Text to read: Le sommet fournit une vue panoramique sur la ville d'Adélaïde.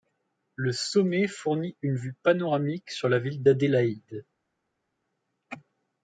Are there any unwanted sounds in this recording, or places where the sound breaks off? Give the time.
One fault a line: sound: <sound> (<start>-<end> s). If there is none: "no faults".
no faults